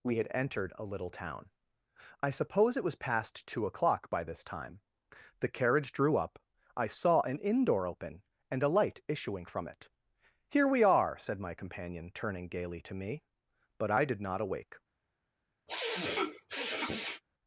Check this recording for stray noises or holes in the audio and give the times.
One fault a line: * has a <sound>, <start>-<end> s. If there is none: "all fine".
* has a sniff, 15.7-17.2 s